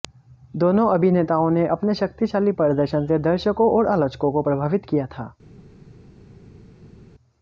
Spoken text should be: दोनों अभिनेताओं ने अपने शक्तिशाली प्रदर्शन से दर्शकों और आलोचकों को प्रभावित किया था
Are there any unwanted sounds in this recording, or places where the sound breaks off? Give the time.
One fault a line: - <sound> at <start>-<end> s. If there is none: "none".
none